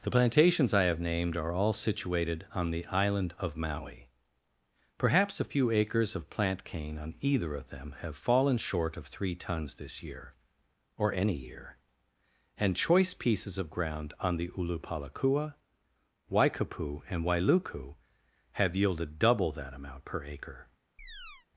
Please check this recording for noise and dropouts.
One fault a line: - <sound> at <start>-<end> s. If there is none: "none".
- chirp at 21.0-21.5 s